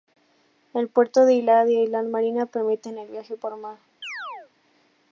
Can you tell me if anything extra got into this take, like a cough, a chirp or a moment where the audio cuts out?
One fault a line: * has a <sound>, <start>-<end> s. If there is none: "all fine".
* has a chirp, 4.0-4.5 s